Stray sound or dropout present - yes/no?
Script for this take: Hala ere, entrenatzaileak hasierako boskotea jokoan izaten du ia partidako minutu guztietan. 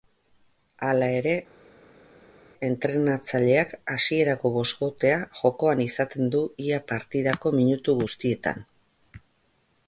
no